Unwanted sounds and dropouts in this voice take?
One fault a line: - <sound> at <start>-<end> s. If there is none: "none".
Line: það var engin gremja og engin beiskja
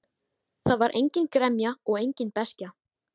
none